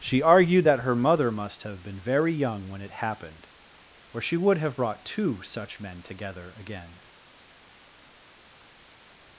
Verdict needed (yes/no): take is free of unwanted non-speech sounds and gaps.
yes